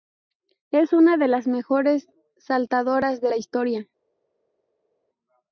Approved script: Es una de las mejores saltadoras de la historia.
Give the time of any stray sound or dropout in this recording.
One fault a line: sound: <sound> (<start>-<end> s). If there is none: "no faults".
no faults